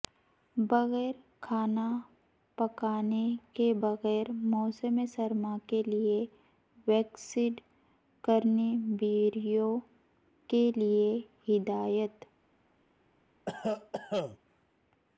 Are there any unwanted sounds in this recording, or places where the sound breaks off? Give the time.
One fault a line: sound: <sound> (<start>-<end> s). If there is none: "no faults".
sound: cough (13.5-14.4 s)